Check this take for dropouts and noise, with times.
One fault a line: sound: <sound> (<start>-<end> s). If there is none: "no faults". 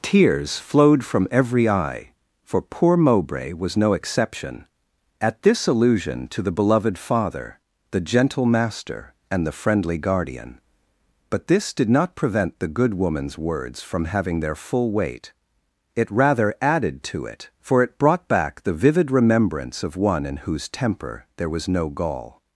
no faults